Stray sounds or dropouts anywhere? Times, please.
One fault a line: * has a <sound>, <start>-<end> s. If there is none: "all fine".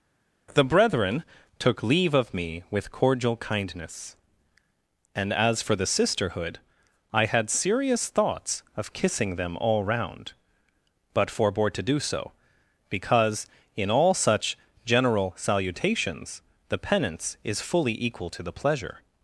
all fine